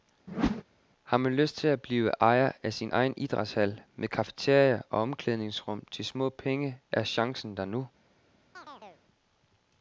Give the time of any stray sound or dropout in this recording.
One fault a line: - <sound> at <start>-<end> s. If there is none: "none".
- whoosh at 0.3-0.6 s
- chirp at 8.5-9.0 s